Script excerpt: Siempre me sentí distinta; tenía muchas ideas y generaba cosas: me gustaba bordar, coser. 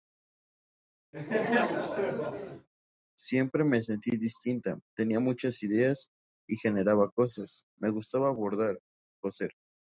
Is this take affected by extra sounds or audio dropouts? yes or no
yes